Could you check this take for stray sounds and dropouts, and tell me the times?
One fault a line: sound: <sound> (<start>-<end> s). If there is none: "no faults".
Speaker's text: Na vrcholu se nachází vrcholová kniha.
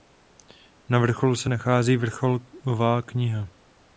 no faults